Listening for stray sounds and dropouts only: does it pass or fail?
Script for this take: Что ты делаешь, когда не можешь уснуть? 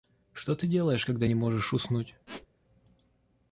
fail